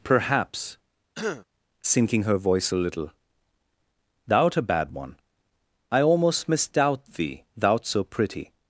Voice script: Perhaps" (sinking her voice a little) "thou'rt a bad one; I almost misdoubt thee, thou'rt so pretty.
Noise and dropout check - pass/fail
fail